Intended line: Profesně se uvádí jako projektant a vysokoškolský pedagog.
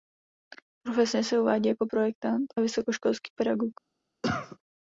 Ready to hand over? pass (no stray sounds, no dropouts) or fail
fail